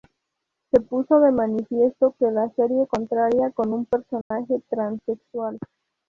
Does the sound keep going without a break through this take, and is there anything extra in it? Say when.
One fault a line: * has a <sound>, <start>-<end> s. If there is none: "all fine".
* has a dropout, 4.2-4.3 s